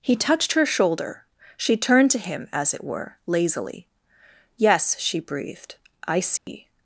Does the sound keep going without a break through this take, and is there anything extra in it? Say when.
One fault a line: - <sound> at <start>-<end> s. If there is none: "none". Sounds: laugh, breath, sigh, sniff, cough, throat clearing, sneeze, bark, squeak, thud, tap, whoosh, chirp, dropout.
- dropout at 6.4-6.5 s